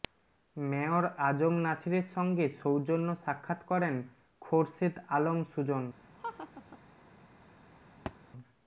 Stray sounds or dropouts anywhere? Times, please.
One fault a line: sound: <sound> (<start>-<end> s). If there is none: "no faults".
sound: laugh (6.2-6.8 s)
sound: thud (8.1-8.2 s)